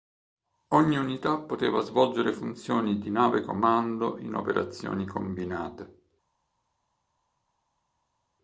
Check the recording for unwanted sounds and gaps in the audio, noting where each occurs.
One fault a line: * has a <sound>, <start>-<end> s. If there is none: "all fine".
all fine